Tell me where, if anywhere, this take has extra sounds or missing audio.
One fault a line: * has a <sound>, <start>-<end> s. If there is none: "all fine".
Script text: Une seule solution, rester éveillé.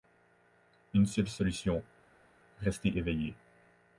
all fine